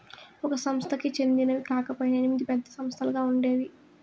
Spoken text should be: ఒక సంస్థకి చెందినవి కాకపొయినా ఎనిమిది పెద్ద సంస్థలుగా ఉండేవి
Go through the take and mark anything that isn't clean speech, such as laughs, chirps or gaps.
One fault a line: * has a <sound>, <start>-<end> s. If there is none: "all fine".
all fine